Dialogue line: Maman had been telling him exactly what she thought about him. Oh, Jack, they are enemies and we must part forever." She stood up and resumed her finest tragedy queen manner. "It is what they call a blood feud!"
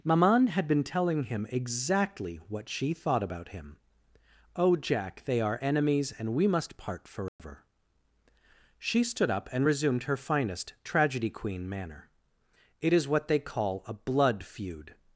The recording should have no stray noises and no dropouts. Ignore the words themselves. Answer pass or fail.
fail